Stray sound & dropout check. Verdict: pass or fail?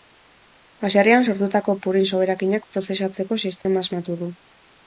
fail